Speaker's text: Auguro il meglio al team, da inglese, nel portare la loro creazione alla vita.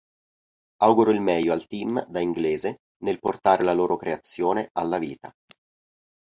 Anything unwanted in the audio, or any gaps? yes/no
no